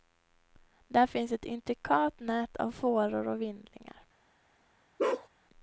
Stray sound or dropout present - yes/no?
yes